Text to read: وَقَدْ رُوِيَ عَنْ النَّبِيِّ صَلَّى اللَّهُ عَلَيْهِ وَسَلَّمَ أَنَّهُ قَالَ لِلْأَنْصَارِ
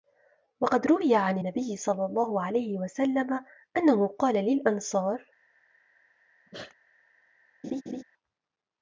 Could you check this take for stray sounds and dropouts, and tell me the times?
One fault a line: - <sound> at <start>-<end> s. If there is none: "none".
- sneeze at 6.5-6.8 s
- laugh at 7.6-8.0 s